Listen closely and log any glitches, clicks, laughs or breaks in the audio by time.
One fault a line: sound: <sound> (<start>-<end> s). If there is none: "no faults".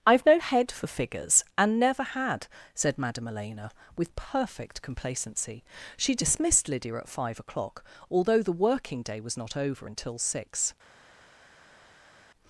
no faults